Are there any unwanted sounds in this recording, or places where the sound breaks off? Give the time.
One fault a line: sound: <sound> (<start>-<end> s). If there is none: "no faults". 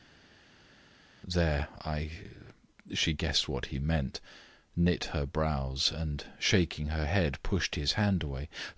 no faults